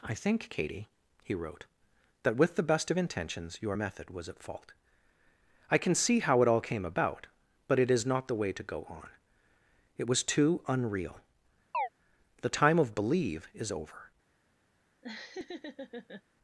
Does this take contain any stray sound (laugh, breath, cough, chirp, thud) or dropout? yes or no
yes